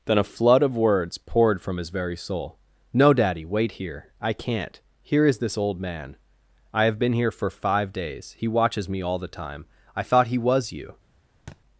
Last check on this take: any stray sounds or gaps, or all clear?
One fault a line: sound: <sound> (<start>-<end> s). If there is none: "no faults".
sound: thud (11.5-11.6 s)